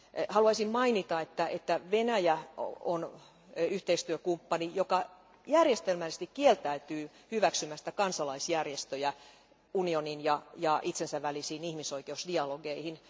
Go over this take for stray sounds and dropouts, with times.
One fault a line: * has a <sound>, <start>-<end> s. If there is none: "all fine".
all fine